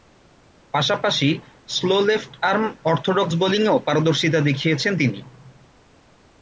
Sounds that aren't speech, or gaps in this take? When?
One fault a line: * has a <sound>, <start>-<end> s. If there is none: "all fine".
all fine